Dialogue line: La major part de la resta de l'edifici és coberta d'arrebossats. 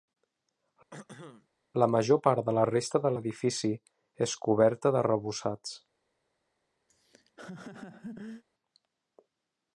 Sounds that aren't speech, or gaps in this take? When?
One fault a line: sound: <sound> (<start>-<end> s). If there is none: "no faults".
sound: throat clearing (0.9-1.5 s)
sound: laugh (6.9-8.4 s)